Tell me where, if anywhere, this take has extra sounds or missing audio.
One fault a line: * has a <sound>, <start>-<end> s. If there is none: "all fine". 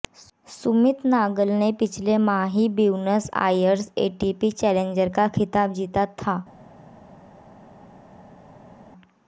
all fine